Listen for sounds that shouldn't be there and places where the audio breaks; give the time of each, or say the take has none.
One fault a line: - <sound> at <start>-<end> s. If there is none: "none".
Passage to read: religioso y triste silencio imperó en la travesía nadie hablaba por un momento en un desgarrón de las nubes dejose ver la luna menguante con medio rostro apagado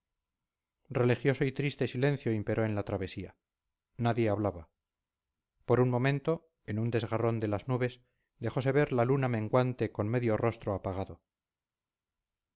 none